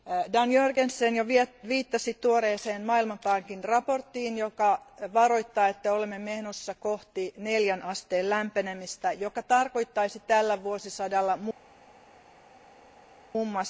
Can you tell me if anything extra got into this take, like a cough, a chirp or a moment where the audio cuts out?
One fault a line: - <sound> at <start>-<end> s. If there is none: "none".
none